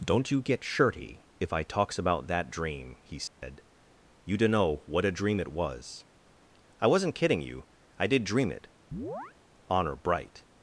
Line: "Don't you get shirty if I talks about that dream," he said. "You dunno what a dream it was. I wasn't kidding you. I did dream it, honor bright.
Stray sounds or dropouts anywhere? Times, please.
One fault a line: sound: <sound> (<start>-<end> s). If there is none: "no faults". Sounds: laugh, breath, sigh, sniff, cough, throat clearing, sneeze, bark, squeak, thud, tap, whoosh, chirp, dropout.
sound: dropout (3.3-3.4 s)
sound: chirp (8.9-9.3 s)